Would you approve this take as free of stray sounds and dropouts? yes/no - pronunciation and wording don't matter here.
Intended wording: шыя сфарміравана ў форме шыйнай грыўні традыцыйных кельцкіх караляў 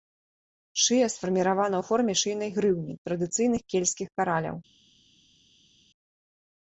yes